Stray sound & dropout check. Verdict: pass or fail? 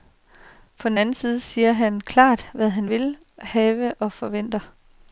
pass